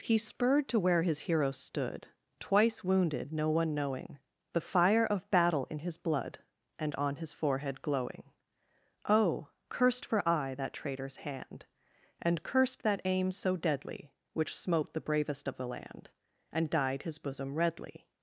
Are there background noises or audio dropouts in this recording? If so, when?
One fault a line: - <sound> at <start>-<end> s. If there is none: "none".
none